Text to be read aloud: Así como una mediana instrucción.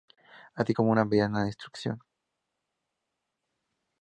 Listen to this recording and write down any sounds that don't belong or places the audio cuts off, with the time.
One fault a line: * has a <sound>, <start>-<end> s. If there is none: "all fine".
all fine